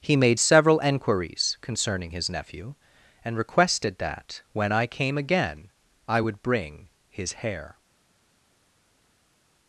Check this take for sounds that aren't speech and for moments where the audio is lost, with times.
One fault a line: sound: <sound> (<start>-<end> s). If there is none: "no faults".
no faults